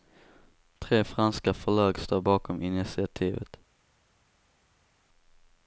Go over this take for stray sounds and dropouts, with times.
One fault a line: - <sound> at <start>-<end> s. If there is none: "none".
none